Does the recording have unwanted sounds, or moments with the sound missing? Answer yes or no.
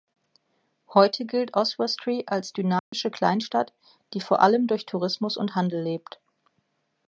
yes